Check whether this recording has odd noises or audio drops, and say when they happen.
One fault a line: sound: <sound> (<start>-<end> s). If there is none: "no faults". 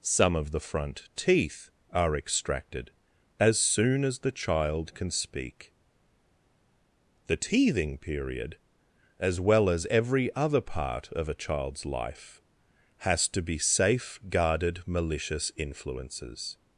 no faults